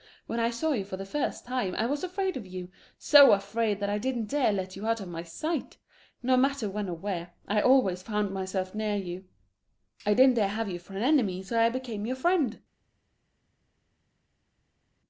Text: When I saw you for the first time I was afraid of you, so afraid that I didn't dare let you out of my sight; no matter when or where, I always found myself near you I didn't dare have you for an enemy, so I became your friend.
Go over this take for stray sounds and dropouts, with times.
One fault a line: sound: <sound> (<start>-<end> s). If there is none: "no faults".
no faults